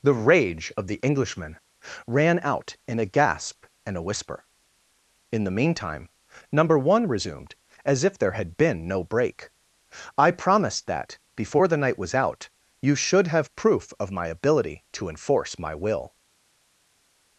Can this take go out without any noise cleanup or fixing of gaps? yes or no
yes